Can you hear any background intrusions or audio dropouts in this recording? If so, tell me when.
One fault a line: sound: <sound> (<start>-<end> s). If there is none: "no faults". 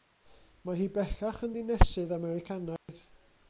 sound: dropout (2.8-2.9 s)